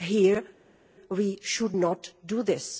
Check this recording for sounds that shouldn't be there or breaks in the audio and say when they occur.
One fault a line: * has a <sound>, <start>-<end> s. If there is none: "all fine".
all fine